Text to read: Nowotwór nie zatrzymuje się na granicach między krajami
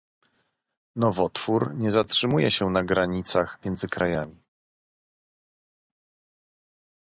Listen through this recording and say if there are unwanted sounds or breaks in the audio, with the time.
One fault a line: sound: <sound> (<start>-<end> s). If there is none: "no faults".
no faults